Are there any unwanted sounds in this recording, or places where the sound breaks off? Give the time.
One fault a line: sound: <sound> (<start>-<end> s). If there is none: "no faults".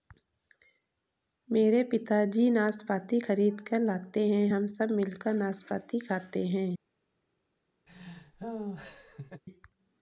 sound: laugh (7.9-9.4 s)